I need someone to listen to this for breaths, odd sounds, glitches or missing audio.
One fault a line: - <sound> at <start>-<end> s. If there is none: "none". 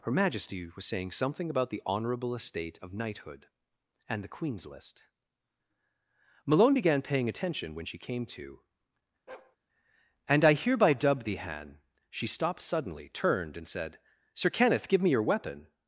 - bark at 9.3-9.6 s